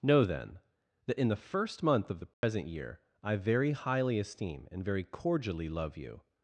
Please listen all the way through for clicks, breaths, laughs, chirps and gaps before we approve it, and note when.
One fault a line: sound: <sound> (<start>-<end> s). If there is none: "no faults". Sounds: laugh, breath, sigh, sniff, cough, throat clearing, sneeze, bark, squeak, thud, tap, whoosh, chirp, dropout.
sound: dropout (2.3-2.4 s)